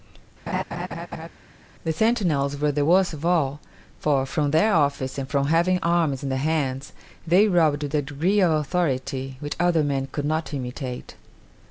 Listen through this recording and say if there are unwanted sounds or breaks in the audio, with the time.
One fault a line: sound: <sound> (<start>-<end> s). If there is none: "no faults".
sound: laugh (0.5-1.3 s)